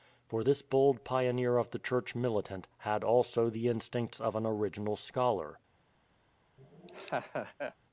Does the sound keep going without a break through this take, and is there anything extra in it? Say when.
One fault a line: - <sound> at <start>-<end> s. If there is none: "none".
- laugh at 6.6-7.7 s